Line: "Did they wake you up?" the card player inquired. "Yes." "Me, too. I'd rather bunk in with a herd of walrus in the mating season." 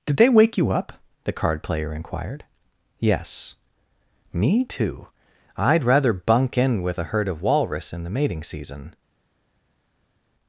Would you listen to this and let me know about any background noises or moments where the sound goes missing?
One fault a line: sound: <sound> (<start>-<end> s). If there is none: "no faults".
no faults